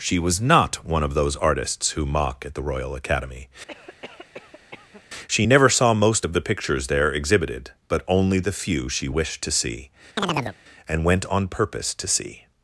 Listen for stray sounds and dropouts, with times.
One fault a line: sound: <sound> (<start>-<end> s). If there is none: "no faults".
sound: cough (3.7-5.0 s)
sound: chirp (10.2-10.6 s)